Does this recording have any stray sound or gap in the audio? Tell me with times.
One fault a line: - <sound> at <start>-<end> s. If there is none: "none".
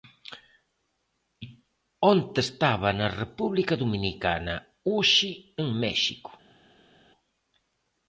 none